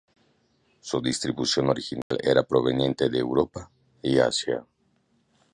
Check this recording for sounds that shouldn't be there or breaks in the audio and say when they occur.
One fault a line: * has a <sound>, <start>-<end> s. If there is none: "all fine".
* has a dropout, 2.0-2.1 s